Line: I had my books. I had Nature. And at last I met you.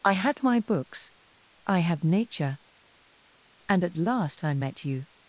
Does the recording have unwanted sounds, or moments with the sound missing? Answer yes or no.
no